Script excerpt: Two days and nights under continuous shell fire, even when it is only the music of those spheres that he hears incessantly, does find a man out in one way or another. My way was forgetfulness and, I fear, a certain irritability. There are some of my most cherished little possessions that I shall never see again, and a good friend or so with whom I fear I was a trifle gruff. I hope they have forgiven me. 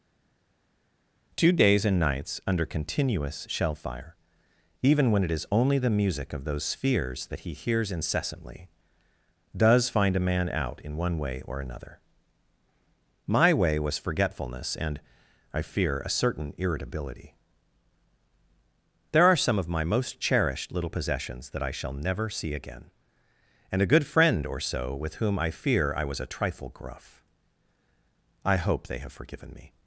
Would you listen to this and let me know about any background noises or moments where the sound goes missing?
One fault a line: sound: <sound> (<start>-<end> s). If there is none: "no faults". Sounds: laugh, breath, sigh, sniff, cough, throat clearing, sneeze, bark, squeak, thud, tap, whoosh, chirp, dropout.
no faults